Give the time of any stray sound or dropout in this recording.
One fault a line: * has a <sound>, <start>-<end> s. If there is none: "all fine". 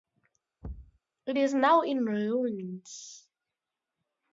* has a thud, 0.6-1.0 s